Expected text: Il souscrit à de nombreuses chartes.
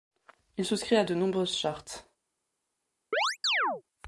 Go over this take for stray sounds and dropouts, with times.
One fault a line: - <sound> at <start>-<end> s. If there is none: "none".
- chirp at 3.1-3.8 s